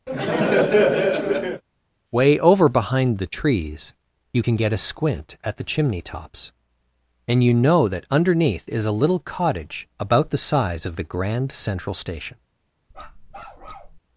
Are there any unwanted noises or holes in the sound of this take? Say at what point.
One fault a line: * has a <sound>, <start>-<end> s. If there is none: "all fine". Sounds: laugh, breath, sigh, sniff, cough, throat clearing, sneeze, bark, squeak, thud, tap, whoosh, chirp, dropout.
* has a laugh, 0.1-1.6 s
* has a bark, 12.9-14.0 s